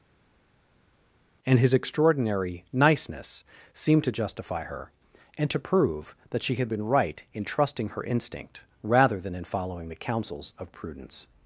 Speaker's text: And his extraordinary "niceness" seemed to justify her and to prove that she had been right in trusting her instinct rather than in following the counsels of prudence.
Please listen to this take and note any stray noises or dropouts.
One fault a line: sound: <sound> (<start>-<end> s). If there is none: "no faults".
no faults